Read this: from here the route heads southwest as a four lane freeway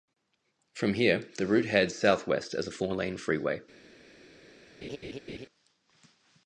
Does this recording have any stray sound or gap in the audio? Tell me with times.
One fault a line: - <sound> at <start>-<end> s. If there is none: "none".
- laugh at 4.8-5.5 s